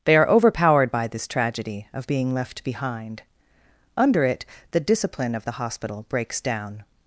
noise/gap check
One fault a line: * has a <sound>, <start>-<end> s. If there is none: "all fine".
all fine